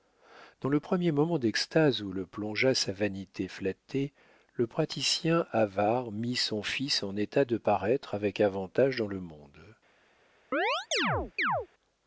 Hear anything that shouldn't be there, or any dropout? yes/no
yes